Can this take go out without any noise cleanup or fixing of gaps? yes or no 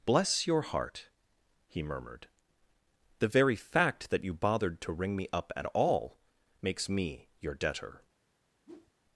no